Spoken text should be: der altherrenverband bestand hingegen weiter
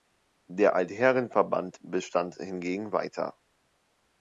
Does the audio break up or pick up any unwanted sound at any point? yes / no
no